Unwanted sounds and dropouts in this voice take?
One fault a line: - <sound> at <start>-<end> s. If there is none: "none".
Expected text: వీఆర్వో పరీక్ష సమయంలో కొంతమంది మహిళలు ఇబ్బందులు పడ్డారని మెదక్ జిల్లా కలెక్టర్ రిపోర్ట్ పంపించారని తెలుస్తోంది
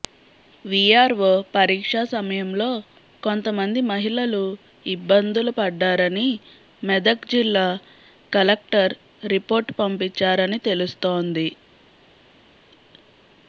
none